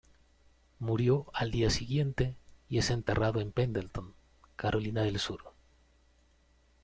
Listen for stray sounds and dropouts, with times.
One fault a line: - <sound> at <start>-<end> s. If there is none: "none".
none